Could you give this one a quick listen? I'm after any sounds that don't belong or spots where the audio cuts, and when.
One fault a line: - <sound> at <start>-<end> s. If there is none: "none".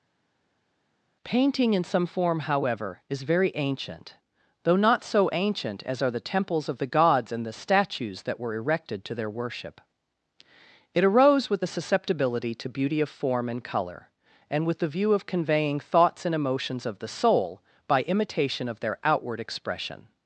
none